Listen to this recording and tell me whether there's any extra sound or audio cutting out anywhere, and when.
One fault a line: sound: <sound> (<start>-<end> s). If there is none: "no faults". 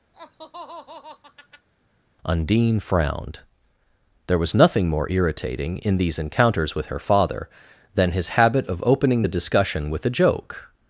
sound: laugh (0.1-1.7 s)